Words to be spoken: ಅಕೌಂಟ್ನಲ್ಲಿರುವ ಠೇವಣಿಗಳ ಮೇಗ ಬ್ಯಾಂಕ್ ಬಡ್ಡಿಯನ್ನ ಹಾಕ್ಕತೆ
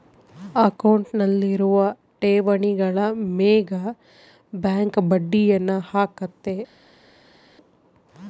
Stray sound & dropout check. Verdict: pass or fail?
pass